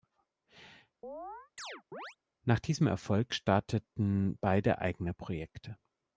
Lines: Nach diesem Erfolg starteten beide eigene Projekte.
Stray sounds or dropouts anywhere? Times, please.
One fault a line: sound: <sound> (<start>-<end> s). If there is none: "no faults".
sound: chirp (1.0-2.2 s)